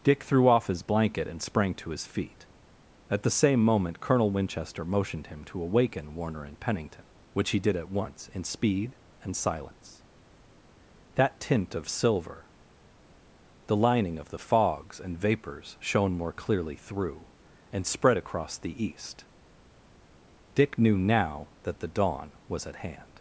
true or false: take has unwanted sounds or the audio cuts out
false